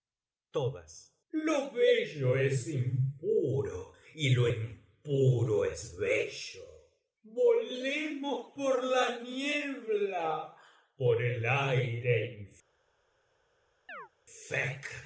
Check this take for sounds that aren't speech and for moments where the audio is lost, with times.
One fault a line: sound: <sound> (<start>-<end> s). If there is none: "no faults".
sound: chirp (13.9-14.1 s)